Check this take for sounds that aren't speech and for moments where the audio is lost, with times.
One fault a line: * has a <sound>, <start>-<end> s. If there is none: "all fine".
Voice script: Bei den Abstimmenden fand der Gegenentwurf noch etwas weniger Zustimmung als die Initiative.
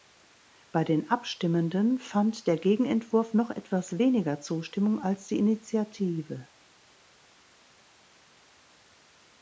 all fine